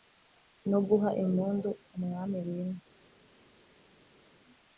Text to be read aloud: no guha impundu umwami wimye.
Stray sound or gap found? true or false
false